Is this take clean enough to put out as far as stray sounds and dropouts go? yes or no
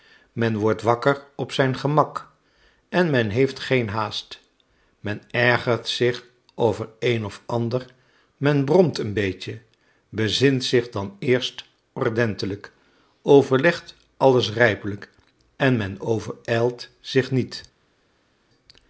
yes